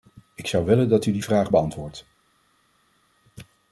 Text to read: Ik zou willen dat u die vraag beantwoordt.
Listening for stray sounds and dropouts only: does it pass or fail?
pass